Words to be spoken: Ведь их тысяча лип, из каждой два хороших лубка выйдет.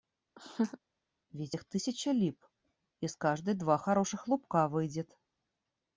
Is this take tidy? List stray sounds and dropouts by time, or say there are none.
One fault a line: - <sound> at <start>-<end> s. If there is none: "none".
- laugh at 0.4-0.8 s